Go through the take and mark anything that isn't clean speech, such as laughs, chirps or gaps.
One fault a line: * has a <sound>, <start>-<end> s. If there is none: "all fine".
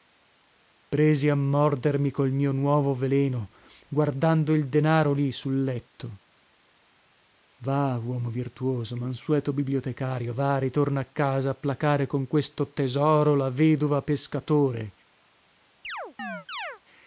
* has a chirp, 15.8-16.8 s